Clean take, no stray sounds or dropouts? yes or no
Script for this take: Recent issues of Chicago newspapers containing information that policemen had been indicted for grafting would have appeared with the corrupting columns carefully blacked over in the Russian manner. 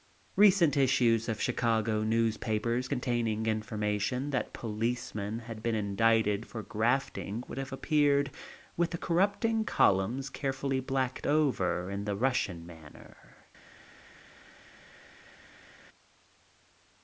yes